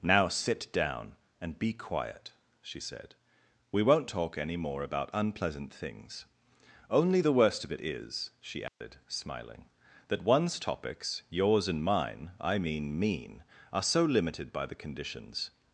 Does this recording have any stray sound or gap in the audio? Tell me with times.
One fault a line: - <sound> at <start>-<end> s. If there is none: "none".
- dropout at 8.7-8.8 s